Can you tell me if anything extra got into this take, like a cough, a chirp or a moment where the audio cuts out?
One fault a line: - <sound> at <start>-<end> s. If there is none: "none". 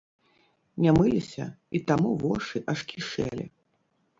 none